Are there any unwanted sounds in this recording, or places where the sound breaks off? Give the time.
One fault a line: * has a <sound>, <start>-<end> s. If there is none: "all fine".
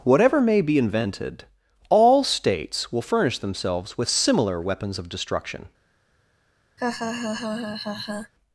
* has a laugh, 6.8-8.3 s